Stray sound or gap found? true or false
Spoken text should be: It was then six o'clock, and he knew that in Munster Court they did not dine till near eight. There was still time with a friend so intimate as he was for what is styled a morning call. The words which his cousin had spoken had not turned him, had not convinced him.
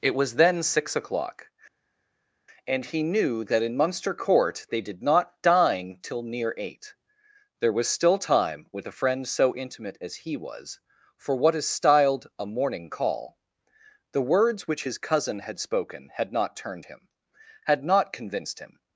false